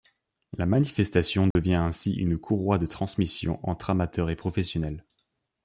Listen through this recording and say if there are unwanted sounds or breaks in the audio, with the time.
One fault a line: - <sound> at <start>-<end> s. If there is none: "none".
- dropout at 1.5-1.6 s